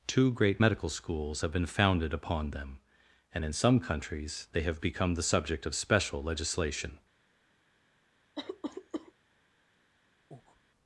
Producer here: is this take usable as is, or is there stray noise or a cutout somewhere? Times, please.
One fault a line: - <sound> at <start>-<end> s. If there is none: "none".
- cough at 8.3-9.1 s
- breath at 10.3-10.6 s